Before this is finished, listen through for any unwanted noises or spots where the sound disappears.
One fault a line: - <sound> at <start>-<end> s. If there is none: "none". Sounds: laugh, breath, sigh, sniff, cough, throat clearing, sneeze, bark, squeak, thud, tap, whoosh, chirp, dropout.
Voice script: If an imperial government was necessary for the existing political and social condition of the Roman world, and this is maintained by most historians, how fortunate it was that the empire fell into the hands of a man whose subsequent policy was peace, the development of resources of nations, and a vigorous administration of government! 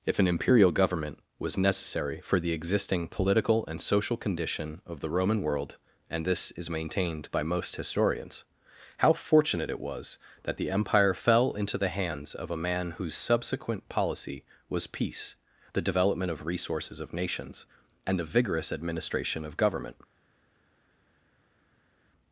none